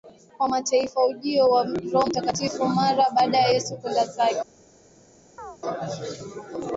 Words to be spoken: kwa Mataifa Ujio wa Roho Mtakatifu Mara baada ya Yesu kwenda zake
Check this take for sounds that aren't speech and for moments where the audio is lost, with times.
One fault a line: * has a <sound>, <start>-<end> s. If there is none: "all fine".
* has a chirp, 5.4-5.6 s